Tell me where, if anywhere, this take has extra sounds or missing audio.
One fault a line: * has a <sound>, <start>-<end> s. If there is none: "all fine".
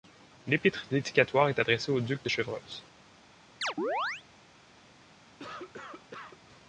* has a chirp, 3.6-4.2 s
* has a cough, 5.4-6.4 s